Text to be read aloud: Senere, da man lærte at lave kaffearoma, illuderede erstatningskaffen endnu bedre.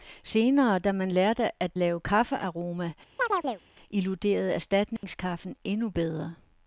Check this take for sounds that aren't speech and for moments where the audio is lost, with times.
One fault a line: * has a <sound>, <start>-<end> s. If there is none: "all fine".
* has a chirp, 3.2-3.6 s
* has a dropout, 5.0-5.0 s